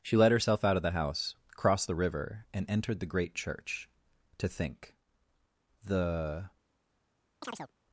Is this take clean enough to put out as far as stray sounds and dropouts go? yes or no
no